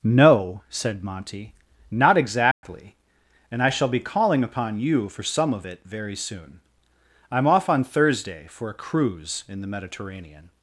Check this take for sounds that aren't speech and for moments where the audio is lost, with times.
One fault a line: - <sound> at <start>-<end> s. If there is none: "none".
- dropout at 2.5-2.6 s